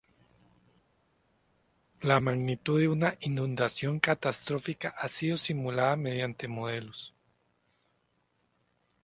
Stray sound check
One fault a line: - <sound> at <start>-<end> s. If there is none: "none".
none